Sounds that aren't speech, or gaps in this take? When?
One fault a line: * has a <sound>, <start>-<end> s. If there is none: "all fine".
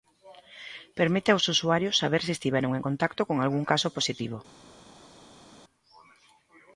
all fine